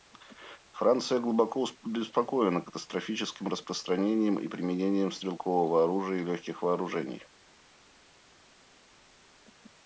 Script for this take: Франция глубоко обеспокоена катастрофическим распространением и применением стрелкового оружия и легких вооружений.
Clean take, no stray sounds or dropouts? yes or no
yes